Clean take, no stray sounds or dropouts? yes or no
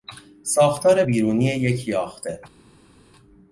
yes